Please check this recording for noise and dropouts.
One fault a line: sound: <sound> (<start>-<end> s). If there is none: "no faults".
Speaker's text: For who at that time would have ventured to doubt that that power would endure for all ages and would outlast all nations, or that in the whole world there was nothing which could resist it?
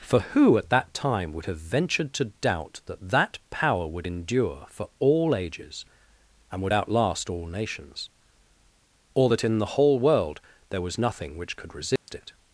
sound: dropout (12.0-12.1 s)